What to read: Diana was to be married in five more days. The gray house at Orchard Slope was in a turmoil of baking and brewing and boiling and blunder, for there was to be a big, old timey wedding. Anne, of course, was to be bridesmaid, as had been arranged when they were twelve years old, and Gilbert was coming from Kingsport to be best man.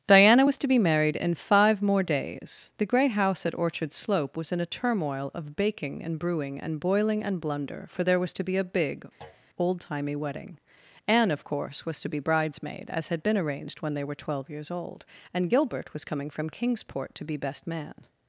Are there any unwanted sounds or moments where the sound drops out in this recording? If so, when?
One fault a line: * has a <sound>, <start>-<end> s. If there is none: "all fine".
* has a thud, 9.2-9.5 s